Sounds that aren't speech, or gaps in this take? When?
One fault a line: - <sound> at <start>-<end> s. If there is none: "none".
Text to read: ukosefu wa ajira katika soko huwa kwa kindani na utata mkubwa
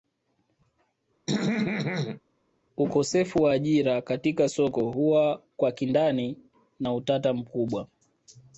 - throat clearing at 1.3-2.2 s